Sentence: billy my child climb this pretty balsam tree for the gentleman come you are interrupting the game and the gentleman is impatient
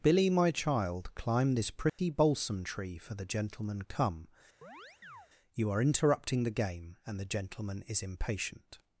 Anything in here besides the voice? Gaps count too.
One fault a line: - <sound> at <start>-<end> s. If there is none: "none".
- dropout at 1.9-2.0 s
- chirp at 4.6-5.3 s